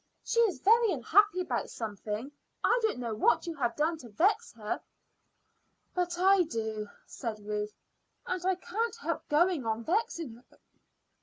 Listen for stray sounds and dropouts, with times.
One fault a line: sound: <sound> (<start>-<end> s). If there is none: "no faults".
no faults